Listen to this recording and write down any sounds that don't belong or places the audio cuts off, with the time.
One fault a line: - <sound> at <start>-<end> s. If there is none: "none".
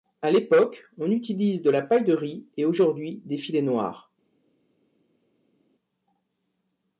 none